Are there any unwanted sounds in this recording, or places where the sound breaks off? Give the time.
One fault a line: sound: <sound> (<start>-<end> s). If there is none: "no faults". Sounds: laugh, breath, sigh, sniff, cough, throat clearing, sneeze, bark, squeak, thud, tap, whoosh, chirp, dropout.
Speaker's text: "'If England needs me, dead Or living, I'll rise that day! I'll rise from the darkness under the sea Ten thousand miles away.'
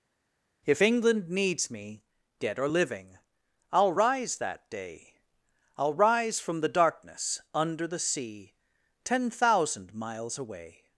no faults